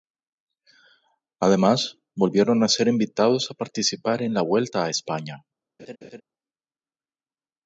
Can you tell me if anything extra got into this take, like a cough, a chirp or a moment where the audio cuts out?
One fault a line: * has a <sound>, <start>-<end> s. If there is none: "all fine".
* has a laugh, 5.8-6.2 s